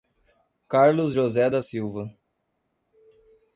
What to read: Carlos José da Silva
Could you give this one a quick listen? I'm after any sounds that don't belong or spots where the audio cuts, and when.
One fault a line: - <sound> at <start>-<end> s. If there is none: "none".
none